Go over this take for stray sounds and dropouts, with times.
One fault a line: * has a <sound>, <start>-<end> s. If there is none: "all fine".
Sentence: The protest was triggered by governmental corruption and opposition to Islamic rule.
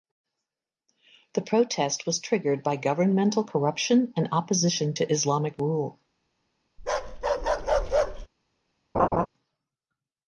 * has a bark, 6.8-8.3 s
* has a laugh, 8.9-9.3 s